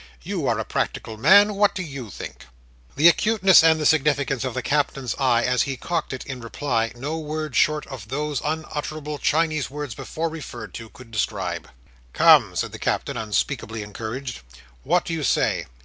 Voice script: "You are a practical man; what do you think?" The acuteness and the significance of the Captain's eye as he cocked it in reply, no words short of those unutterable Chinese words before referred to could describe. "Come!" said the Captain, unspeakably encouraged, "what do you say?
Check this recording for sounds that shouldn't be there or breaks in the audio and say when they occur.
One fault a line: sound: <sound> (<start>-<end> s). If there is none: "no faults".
no faults